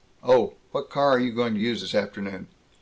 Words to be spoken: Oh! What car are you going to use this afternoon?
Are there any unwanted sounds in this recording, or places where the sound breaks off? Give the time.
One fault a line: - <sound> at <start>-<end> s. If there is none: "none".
none